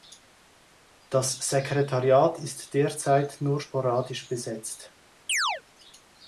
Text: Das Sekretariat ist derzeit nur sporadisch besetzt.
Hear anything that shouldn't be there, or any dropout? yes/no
yes